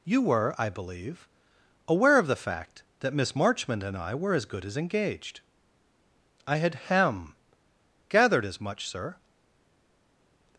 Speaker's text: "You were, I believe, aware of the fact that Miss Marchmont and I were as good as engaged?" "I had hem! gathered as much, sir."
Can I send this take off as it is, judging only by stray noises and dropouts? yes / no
yes